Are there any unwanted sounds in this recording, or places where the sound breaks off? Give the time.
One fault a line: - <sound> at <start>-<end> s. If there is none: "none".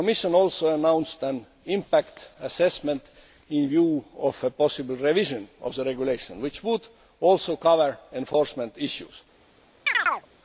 - chirp at 9.9-10.3 s